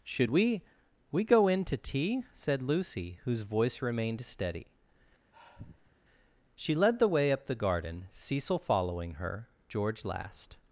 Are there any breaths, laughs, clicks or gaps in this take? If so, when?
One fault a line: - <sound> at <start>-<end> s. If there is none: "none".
- sigh at 5.3-6.0 s